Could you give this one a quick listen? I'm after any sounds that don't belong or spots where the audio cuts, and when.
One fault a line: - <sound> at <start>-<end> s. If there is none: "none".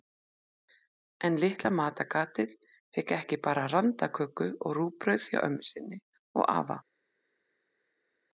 none